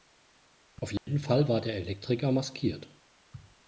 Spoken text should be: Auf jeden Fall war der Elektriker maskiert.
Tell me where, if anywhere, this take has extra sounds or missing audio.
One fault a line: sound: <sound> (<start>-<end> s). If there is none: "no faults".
sound: dropout (1.0-1.1 s)